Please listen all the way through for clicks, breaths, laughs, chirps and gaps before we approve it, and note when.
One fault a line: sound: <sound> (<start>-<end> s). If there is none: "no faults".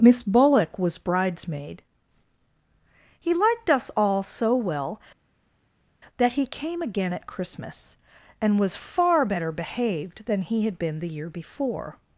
no faults